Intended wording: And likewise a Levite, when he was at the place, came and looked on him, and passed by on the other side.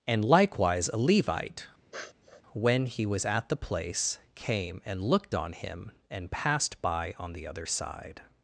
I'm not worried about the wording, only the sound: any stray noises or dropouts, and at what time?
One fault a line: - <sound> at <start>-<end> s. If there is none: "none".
- sniff at 1.9-2.4 s